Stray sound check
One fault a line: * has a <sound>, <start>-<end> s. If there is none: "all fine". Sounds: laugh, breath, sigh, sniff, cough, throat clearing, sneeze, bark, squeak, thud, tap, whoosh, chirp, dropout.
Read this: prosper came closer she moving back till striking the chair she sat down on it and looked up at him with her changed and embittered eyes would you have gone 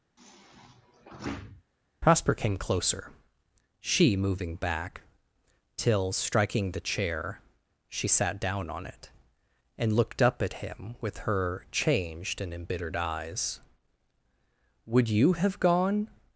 * has a sigh, 0.2-1.6 s